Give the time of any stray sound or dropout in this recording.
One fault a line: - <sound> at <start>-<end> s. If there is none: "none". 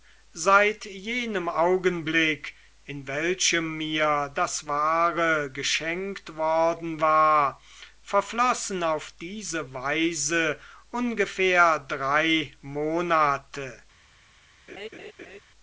- laugh at 14.7-15.4 s